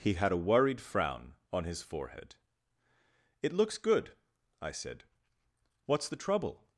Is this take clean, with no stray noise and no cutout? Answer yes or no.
yes